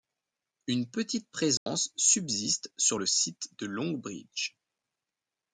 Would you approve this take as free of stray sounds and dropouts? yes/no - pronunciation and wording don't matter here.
no